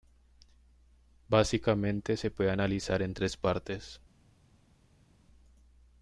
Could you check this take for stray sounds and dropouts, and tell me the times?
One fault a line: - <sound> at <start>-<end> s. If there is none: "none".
none